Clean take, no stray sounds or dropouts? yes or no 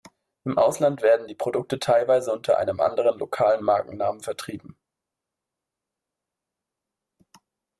yes